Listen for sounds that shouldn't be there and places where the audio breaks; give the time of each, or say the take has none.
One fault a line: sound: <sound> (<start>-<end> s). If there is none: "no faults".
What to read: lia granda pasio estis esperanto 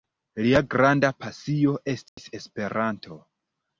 sound: dropout (2.1-2.2 s)